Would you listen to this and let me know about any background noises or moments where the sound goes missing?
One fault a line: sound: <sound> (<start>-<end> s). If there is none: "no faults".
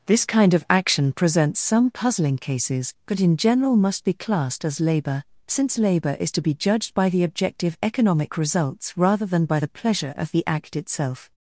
no faults